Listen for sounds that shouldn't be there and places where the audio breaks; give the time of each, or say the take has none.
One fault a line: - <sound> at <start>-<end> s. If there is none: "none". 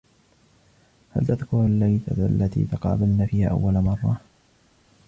none